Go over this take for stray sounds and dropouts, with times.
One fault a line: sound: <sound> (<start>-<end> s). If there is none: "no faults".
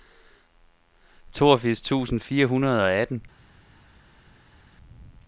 no faults